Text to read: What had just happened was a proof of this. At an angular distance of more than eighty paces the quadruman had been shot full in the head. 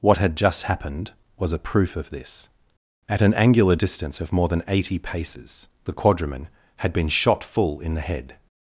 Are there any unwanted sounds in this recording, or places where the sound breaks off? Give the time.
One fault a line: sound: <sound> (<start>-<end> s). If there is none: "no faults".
no faults